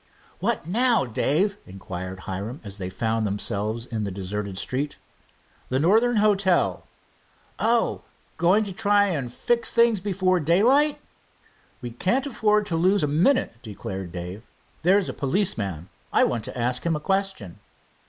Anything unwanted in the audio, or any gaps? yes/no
no